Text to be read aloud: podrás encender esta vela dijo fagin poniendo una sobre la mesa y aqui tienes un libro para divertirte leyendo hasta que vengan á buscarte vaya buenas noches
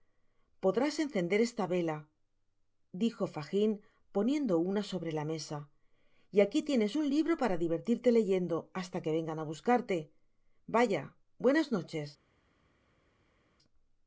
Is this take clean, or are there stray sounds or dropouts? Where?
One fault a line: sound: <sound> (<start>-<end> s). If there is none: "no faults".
no faults